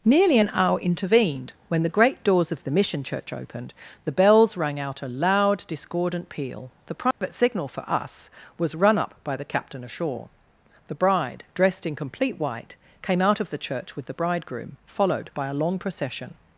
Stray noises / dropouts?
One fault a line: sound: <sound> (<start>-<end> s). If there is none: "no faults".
sound: dropout (7.1-7.2 s)